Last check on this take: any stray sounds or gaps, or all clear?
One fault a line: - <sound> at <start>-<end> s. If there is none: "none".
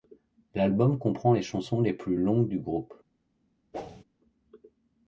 - whoosh at 3.7-4.0 s